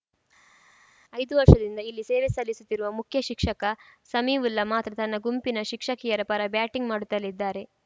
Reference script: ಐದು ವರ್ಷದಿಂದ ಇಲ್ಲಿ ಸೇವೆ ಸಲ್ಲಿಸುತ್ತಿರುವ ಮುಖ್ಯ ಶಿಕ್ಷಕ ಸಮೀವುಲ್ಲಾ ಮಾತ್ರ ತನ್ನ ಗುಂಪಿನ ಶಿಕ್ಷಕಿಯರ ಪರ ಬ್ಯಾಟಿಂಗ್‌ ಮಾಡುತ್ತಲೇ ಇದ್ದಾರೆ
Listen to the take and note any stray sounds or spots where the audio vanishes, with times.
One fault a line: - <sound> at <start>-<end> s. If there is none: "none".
none